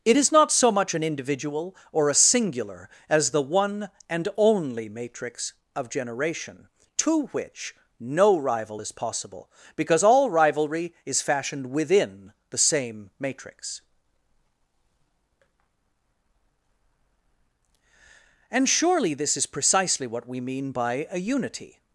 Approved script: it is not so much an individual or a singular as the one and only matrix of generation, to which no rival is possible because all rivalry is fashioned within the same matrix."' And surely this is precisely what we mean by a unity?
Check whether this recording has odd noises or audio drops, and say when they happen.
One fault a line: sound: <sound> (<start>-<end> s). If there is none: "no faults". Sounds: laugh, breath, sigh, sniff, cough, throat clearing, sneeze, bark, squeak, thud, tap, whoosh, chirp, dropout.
no faults